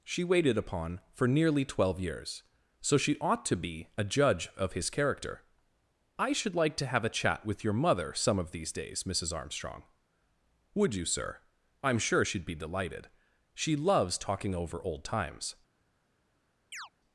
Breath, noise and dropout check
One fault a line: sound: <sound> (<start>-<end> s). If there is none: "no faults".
sound: chirp (16.7-16.9 s)